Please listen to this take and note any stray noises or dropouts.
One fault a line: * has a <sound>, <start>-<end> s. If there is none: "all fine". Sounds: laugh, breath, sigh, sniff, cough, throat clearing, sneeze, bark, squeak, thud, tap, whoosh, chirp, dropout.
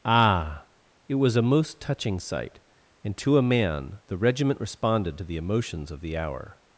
all fine